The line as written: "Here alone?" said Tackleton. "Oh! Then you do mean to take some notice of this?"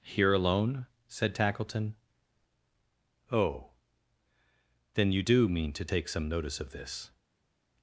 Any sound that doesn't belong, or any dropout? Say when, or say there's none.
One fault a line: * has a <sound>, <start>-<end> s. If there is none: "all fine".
all fine